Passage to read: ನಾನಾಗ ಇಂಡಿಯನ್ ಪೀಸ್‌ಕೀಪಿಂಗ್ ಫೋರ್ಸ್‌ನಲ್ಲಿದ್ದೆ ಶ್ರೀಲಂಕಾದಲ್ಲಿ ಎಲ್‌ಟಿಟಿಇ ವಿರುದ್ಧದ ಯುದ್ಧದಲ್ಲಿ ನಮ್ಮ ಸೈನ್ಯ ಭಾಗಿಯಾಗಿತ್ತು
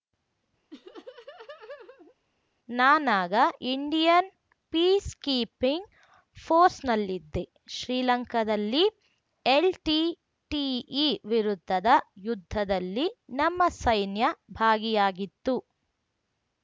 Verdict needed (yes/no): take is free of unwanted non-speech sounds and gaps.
no